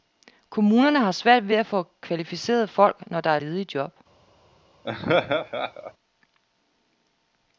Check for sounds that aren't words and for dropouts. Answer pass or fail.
fail